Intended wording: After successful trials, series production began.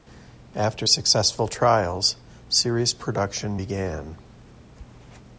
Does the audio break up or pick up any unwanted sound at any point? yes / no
no